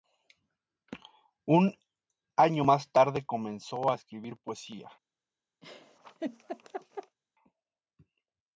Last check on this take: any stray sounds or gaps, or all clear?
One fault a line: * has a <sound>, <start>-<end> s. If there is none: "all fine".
* has a laugh, 5.6-7.2 s